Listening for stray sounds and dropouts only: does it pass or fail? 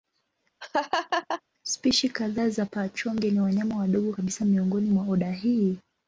fail